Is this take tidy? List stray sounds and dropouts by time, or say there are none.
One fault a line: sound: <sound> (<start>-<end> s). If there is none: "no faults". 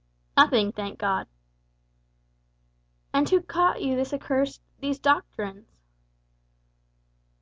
no faults